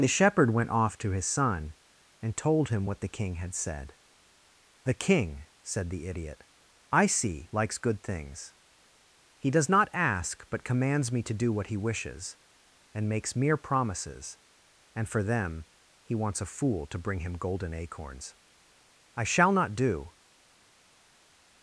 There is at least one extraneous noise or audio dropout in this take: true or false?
false